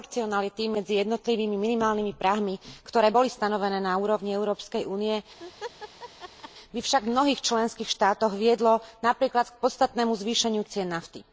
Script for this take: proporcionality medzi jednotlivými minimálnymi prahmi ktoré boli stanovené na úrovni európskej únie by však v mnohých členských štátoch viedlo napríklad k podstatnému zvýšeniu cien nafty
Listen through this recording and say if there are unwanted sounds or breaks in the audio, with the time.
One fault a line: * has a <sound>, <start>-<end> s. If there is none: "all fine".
* has a laugh, 5.4-6.5 s